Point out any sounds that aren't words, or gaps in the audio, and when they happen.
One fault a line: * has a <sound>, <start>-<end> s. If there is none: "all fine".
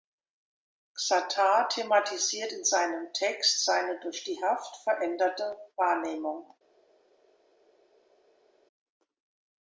all fine